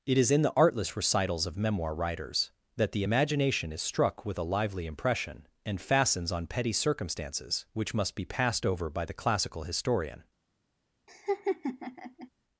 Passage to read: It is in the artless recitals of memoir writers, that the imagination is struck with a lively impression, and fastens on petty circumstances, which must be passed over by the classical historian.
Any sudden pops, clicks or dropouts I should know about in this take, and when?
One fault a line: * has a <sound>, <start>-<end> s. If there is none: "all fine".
* has a laugh, 11.1-12.3 s